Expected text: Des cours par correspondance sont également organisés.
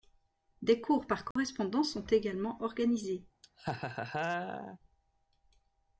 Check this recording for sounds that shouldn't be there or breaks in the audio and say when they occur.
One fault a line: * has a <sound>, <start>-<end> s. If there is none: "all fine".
* has a dropout, 1.3-1.4 s
* has a laugh, 3.4-4.8 s